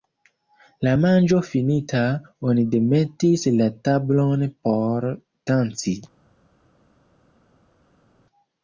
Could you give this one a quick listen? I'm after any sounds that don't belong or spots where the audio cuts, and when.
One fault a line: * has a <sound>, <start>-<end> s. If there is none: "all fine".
all fine